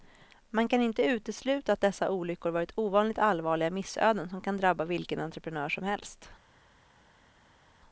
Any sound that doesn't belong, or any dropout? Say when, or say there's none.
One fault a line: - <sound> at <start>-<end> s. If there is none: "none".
none